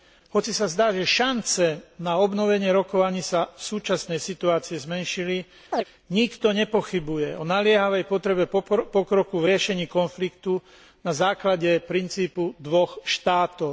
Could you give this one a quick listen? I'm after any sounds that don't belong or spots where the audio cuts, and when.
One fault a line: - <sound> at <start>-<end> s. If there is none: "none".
- chirp at 5.7-5.8 s